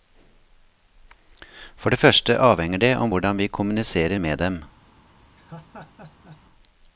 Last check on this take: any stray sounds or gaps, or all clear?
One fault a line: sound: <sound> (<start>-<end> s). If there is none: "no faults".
sound: laugh (5.4-6.4 s)